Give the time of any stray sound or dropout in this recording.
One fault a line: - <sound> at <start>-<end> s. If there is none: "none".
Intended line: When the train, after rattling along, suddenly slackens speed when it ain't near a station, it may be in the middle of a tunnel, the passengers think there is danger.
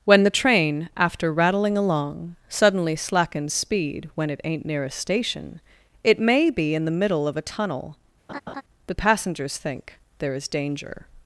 - laugh at 8.3-8.6 s